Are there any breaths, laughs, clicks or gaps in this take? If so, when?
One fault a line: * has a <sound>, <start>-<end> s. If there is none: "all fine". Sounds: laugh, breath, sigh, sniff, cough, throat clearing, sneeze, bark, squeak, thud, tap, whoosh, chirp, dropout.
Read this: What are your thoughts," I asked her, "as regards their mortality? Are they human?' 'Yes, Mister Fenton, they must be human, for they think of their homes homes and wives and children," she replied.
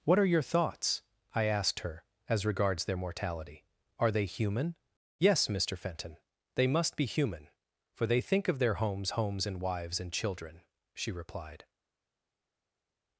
all fine